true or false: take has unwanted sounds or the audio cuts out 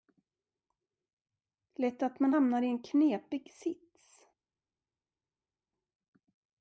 false